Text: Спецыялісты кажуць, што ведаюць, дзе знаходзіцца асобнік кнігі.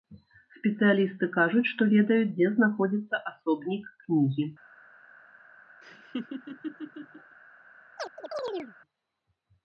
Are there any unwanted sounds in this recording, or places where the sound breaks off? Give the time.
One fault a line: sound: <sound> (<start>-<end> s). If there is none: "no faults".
sound: laugh (5.8-7.4 s)
sound: chirp (8.0-8.7 s)